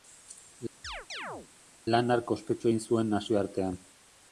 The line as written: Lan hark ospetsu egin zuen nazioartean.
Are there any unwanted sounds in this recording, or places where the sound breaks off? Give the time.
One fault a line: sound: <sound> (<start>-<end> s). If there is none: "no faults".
sound: chirp (0.8-1.5 s)